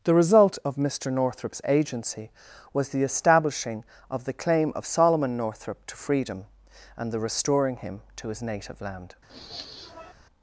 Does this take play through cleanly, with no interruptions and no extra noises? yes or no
no